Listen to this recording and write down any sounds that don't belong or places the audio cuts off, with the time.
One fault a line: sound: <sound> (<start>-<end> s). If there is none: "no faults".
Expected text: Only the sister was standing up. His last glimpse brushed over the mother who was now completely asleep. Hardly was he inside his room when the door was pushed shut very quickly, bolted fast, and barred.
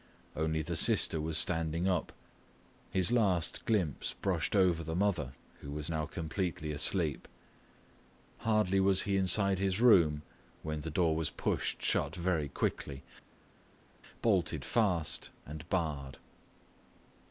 no faults